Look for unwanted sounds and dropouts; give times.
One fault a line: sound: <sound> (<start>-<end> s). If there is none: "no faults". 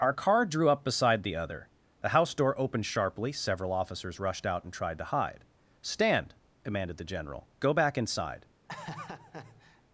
sound: laugh (8.7-9.8 s)